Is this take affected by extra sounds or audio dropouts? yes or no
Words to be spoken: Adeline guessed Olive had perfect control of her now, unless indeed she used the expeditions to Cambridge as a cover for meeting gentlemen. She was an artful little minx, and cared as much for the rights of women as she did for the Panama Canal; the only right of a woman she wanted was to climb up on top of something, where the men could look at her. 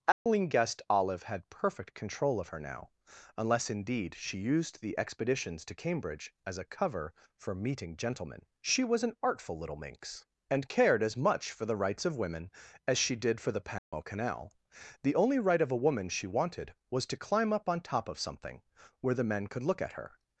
yes